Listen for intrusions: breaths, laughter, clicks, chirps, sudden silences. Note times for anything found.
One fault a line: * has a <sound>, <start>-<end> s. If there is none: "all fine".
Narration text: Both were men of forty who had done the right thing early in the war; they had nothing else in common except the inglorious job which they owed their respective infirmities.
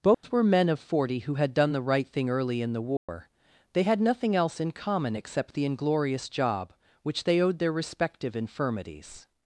* has a dropout, 0.1-0.2 s
* has a dropout, 3.0-3.1 s